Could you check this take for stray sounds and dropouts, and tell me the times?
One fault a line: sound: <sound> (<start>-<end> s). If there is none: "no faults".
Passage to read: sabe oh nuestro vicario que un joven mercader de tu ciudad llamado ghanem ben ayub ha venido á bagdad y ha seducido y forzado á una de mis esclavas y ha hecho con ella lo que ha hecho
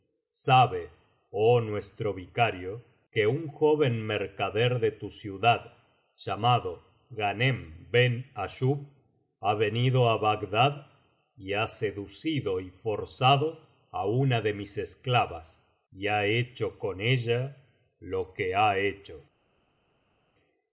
no faults